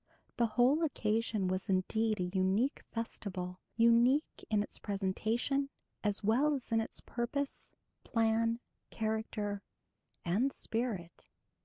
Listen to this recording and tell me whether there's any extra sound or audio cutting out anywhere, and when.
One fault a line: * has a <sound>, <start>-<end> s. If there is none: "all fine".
all fine